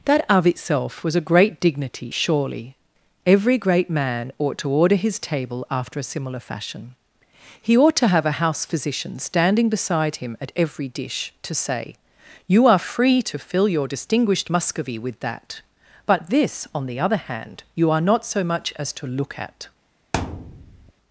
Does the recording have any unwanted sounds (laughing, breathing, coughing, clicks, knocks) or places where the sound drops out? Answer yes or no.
yes